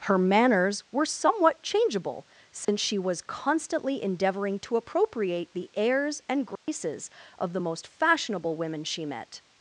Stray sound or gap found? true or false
true